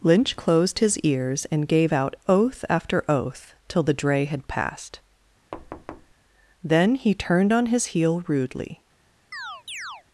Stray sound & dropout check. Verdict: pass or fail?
fail